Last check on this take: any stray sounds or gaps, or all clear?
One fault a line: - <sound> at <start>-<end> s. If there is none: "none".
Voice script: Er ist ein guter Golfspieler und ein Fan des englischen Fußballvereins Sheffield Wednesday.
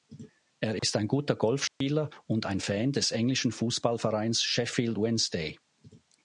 - dropout at 0.8-0.8 s
- dropout at 1.7-1.8 s